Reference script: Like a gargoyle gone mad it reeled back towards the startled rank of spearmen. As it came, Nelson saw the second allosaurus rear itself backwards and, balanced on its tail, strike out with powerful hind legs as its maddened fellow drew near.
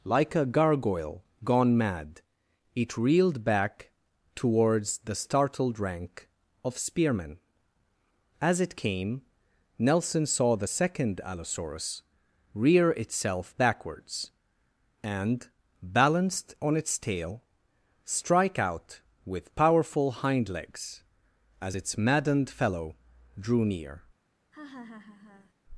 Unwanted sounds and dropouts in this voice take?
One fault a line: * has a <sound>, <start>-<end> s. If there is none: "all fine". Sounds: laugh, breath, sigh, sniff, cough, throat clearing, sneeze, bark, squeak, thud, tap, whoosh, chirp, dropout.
* has a laugh, 24.5-25.5 s